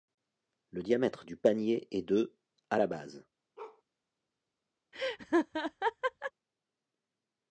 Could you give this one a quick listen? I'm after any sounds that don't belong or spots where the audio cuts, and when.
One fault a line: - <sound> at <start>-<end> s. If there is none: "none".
- bark at 3.6-3.8 s
- laugh at 4.9-6.3 s